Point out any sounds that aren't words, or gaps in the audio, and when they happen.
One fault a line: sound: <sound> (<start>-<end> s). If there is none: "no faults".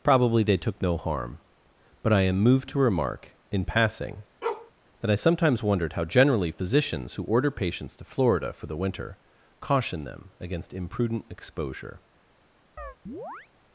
sound: bark (4.4-4.7 s)
sound: chirp (12.8-13.5 s)